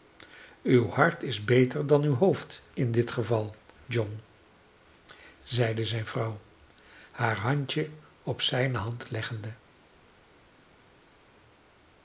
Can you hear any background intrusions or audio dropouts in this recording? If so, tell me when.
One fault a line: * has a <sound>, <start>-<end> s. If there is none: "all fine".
all fine